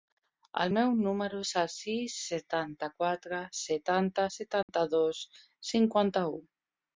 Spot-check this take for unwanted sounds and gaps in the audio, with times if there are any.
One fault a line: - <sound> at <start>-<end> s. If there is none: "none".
- dropout at 4.6-4.7 s